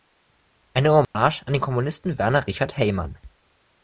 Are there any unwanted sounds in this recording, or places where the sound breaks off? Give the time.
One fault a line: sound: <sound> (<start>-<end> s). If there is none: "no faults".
sound: dropout (1.0-1.1 s)